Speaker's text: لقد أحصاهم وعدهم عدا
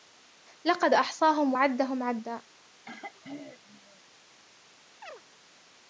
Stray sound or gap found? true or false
true